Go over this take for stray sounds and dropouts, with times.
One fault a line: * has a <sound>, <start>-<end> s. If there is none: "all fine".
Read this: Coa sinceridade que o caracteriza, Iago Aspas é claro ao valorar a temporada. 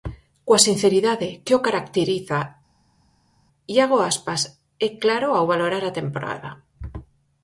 all fine